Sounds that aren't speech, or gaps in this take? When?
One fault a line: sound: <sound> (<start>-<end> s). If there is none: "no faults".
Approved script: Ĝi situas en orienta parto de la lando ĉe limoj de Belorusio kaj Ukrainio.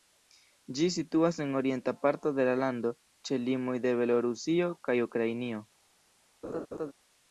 sound: laugh (6.4-6.9 s)